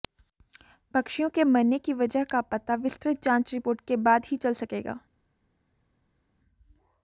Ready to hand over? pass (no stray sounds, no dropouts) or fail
pass